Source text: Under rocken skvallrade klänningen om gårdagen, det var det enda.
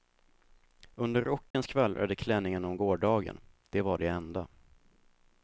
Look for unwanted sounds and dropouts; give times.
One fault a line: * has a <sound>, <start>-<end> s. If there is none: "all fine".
* has a dropout, 1.5-1.5 s